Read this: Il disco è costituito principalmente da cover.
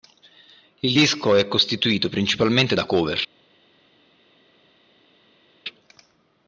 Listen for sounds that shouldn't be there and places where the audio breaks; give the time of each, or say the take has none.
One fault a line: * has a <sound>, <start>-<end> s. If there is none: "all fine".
all fine